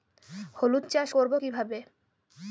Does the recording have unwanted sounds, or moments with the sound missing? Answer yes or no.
no